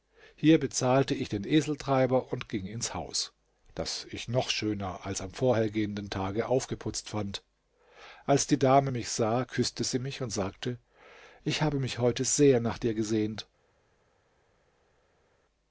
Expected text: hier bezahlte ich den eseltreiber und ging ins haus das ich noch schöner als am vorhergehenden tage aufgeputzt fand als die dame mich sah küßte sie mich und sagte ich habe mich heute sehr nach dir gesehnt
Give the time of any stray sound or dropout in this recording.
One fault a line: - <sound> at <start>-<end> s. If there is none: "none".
none